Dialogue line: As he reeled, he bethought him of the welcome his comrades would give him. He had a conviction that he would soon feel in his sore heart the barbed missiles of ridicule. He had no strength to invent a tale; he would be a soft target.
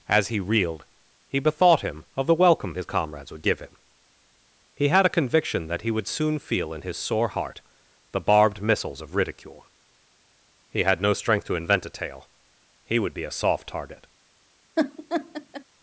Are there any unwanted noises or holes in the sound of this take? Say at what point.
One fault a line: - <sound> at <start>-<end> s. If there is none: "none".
- laugh at 14.8-15.6 s